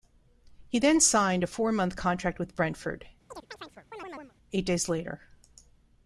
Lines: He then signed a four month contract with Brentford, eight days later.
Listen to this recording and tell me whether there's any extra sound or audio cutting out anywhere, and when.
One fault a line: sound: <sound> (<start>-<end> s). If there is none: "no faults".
sound: chirp (3.3-4.3 s)